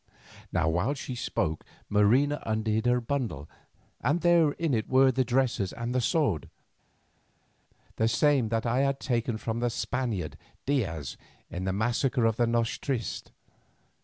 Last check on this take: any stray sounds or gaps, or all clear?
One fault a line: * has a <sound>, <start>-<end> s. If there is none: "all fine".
all fine